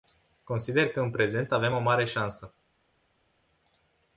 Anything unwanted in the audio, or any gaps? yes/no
no